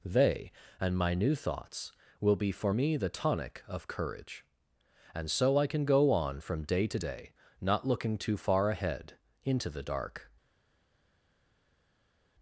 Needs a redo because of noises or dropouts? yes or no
no